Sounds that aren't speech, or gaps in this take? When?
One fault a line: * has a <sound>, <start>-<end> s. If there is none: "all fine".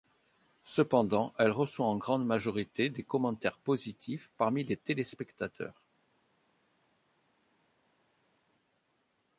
all fine